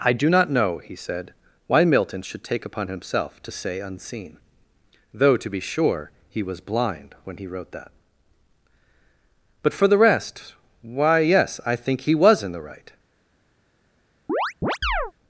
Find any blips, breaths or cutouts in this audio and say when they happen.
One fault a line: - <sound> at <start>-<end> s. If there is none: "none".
- chirp at 14.3-15.1 s